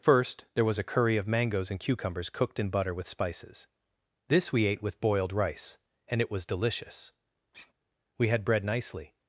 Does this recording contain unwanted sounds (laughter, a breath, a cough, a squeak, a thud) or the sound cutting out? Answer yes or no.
yes